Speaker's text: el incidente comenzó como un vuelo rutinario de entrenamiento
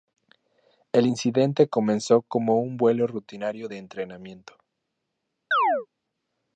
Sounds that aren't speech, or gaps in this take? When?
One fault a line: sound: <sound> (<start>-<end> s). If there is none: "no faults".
sound: chirp (5.5-5.9 s)